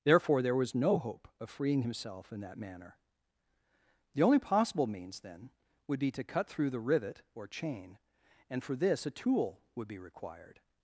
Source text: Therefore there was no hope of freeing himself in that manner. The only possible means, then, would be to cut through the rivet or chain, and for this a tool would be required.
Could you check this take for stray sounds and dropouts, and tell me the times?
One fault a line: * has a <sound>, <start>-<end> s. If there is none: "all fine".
all fine